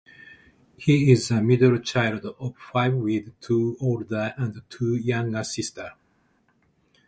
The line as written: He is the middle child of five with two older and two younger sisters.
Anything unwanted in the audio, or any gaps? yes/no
no